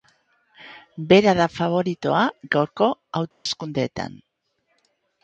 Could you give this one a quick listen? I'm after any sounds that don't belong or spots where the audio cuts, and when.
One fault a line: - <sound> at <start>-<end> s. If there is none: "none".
- dropout at 3.3-3.5 s